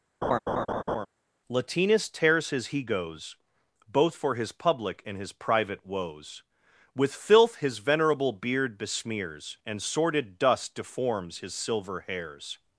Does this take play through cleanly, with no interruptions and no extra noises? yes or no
no